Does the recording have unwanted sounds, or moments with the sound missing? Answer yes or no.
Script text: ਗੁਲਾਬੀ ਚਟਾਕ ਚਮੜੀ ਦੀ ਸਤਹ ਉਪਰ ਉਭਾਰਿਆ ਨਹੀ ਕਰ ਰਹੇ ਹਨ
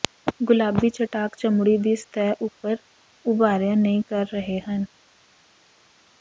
no